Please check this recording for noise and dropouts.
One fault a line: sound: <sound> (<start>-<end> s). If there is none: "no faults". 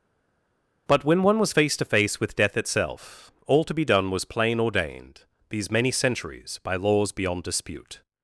no faults